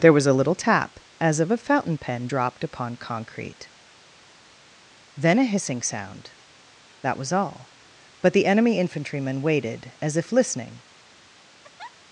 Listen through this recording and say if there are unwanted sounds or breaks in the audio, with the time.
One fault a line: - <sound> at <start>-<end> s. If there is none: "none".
- laugh at 11.6-12.0 s